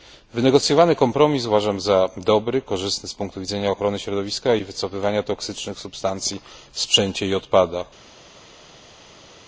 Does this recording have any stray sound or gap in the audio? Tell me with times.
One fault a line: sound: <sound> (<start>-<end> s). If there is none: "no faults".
no faults